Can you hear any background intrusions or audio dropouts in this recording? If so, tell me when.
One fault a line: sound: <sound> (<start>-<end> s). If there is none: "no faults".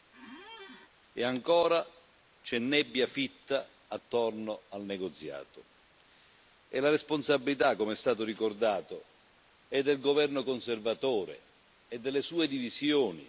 sound: squeak (0.1-0.9 s)